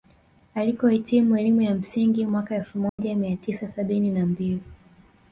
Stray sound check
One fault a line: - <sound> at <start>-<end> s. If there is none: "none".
- dropout at 2.9-3.0 s